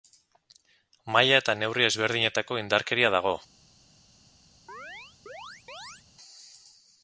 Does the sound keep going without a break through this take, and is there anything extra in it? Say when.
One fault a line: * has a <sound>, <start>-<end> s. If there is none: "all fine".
* has a chirp, 4.7-6.0 s